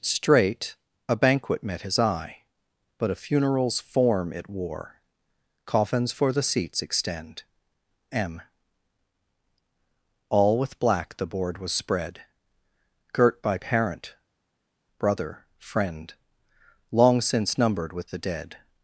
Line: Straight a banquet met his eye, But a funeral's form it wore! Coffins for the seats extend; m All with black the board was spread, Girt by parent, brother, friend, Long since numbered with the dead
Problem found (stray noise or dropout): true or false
false